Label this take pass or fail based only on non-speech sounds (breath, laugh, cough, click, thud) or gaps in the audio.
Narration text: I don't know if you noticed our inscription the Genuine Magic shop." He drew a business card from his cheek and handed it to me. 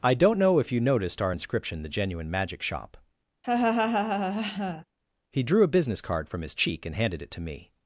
fail